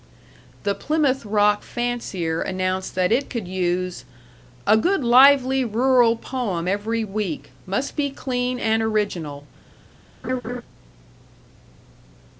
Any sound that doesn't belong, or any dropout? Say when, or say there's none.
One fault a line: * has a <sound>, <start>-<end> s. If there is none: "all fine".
* has a laugh, 10.2-10.6 s